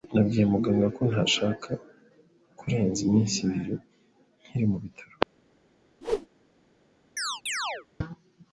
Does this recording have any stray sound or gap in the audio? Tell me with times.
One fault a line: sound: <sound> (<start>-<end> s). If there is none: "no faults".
sound: whoosh (6.0-6.3 s)
sound: chirp (7.2-7.9 s)